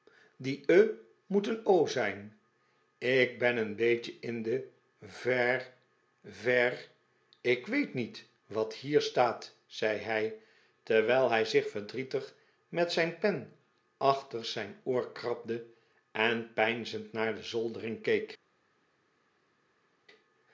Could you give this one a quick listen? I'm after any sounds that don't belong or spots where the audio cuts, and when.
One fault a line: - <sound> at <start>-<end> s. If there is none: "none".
none